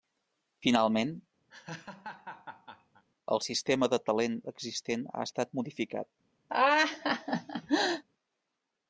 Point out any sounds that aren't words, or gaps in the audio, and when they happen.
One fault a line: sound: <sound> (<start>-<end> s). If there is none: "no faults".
sound: laugh (1.5-3.0 s)
sound: laugh (6.5-8.0 s)